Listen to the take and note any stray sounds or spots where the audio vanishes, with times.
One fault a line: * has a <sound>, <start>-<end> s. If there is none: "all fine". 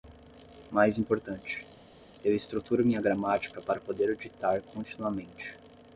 all fine